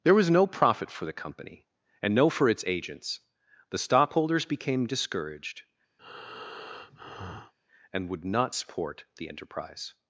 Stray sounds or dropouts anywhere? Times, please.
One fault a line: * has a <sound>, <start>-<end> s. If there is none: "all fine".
* has a breath, 6.0-7.5 s